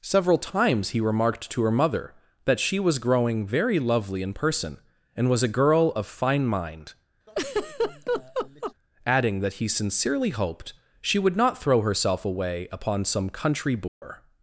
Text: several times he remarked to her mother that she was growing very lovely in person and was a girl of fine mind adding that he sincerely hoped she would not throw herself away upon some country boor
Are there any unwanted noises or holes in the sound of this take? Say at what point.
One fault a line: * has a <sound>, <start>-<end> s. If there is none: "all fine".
* has a laugh, 7.3-8.7 s
* has a dropout, 13.9-14.0 s